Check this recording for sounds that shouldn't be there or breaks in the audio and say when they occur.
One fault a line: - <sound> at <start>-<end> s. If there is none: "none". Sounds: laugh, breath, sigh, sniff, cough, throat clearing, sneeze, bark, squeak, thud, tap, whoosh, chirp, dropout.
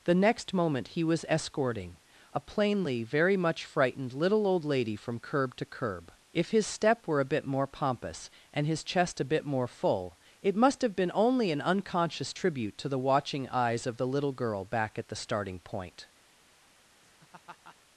- laugh at 17.0-17.8 s